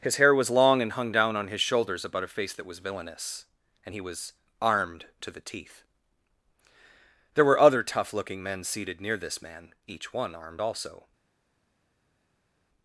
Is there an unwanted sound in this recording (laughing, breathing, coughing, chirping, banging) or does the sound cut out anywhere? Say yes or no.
no